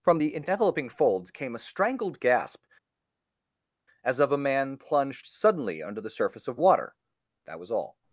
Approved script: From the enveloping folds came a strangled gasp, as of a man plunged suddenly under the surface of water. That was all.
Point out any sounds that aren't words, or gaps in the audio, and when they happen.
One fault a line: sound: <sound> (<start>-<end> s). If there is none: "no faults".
no faults